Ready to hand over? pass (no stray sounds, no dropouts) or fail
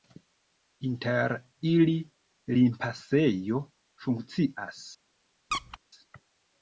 fail